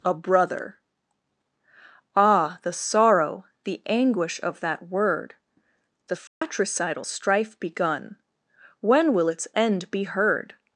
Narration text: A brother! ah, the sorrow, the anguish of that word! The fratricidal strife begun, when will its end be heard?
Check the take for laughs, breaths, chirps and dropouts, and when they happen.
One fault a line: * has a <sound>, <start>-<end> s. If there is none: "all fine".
* has a dropout, 6.3-6.4 s